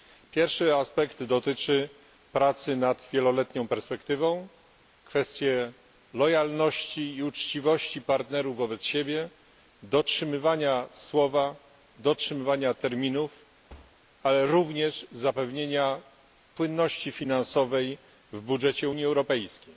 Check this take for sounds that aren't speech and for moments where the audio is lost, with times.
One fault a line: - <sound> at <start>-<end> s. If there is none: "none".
- thud at 13.7-14.0 s